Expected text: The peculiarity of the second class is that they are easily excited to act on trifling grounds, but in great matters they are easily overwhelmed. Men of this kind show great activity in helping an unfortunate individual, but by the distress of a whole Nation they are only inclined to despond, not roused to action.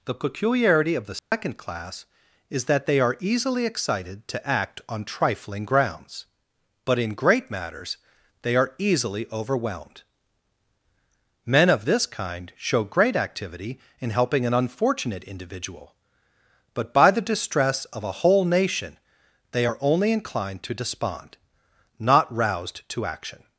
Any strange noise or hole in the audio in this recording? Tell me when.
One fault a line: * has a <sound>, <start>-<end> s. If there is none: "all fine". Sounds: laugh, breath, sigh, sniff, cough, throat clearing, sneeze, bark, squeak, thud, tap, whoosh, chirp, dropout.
* has a dropout, 1.2-1.3 s